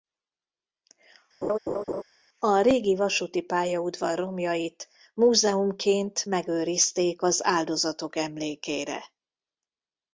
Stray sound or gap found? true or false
true